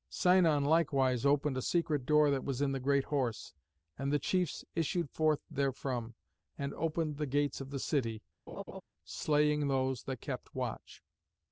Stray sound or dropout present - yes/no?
yes